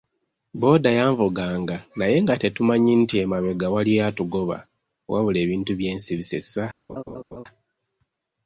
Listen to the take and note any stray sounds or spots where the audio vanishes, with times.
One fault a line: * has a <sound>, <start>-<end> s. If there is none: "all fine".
* has a laugh, 6.9-7.4 s